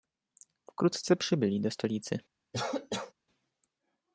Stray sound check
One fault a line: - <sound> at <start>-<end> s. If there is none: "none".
- cough at 2.5-3.1 s